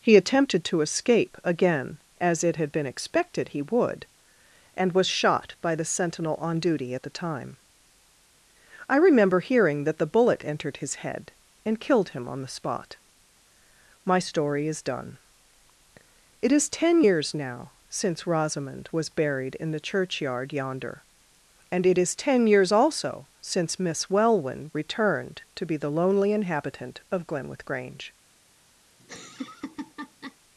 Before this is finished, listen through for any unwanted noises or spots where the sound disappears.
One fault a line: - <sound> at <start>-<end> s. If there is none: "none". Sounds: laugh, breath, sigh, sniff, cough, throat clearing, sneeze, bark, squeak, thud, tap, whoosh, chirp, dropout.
- laugh at 29.0-30.4 s